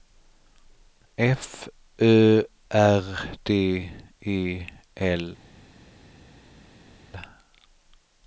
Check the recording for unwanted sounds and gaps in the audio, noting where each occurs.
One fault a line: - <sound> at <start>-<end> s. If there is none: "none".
none